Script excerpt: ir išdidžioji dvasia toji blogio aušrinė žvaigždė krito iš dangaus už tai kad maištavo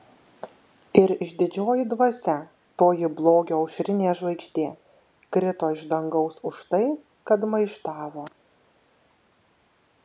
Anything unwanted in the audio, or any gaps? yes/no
no